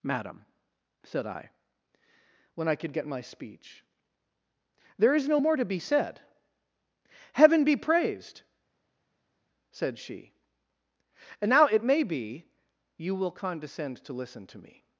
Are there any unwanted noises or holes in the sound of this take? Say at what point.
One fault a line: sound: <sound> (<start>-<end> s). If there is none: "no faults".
no faults